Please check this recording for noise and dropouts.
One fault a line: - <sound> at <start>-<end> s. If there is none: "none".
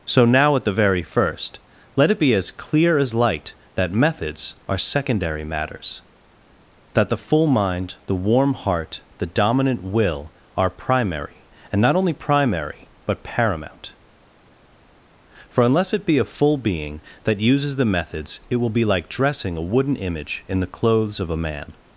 none